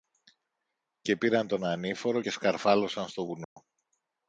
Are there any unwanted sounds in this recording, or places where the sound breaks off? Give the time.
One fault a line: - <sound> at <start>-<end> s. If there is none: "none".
- dropout at 3.4-3.6 s